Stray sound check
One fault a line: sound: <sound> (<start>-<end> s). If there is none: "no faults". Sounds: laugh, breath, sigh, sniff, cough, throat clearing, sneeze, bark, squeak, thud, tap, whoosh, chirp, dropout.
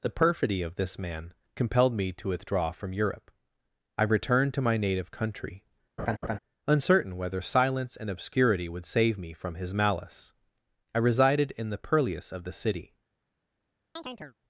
sound: laugh (6.0-6.4 s)
sound: chirp (14.0-14.4 s)